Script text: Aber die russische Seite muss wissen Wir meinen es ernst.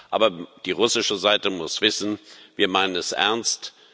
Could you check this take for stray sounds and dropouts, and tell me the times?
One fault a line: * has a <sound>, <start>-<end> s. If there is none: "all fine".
all fine